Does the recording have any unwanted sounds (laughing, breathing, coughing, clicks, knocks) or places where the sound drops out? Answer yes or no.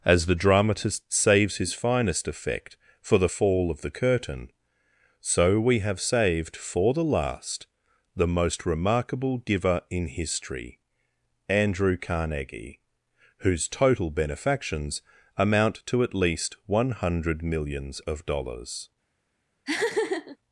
yes